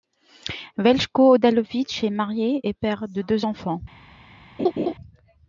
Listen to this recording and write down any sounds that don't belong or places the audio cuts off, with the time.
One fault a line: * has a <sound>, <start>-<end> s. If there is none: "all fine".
* has a laugh, 4.6-4.9 s